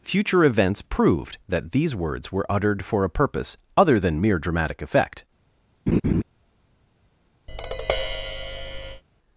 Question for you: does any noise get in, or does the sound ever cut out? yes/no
yes